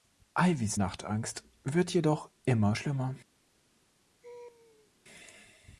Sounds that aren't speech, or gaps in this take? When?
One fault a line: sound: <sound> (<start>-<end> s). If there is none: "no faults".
sound: laugh (4.2-4.9 s)